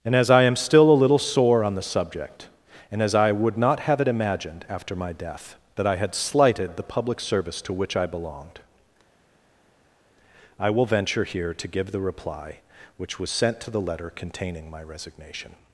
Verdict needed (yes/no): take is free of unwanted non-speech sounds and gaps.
yes